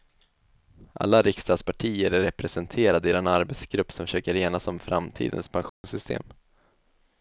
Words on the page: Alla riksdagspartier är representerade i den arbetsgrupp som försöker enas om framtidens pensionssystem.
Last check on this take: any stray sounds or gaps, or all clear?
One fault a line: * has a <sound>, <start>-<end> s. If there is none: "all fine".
* has a dropout, 5.7-5.8 s